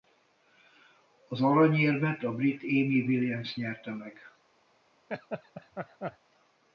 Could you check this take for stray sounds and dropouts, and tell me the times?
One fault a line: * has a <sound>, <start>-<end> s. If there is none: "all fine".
* has a laugh, 5.1-6.2 s